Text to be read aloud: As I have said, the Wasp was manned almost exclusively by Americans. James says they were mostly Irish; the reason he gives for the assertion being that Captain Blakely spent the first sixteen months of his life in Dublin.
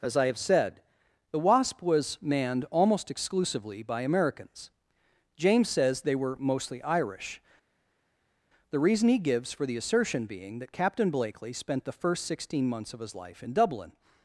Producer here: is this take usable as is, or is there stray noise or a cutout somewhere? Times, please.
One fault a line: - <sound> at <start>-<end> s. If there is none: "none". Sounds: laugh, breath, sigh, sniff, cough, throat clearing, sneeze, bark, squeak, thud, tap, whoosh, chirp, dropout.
none